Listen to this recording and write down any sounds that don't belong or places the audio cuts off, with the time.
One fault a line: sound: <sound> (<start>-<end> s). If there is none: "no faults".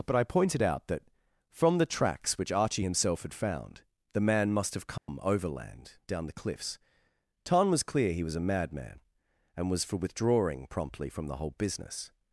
sound: dropout (5.0-5.1 s)